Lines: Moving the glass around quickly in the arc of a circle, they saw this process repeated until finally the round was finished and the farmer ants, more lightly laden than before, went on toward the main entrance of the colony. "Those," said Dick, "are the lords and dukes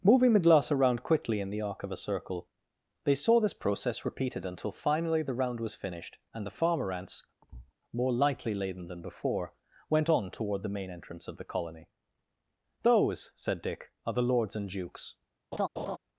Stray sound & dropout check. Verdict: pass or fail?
fail